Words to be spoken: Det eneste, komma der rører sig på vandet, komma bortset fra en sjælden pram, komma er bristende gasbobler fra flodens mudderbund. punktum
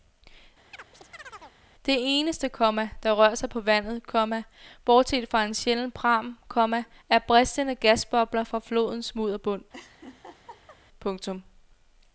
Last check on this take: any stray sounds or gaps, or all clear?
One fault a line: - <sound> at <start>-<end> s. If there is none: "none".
- chirp at 0.7-1.6 s
- laugh at 9.7-10.8 s